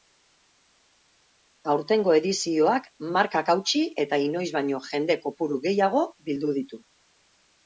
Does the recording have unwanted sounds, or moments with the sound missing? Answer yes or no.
no